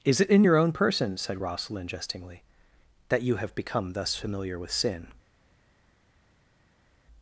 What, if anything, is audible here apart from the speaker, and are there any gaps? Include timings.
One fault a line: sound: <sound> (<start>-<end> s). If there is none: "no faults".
no faults